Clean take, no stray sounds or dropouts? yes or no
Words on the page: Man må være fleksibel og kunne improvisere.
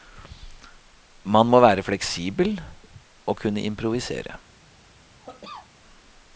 no